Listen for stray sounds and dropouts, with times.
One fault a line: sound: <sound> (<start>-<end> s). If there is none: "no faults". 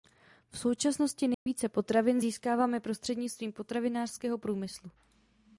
sound: dropout (1.3-1.5 s)